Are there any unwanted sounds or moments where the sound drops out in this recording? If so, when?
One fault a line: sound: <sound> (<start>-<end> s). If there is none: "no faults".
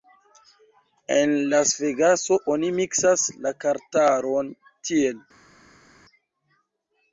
no faults